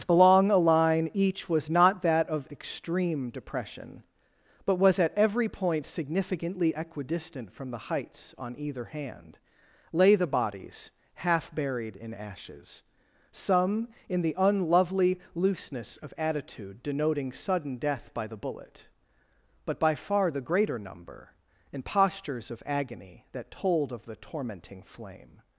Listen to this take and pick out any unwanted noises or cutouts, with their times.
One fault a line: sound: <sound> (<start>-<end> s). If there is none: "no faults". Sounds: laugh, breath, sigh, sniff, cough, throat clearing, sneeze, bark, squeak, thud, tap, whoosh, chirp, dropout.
no faults